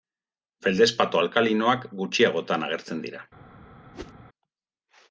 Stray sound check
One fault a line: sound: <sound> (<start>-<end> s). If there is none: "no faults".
sound: whoosh (3.9-4.1 s)